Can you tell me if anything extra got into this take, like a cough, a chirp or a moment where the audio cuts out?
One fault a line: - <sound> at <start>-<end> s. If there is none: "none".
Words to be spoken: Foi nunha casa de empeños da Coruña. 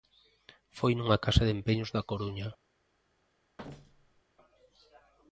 - thud at 3.6-4.2 s